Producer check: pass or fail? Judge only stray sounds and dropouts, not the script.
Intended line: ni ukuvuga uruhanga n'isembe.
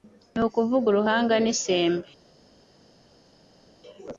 pass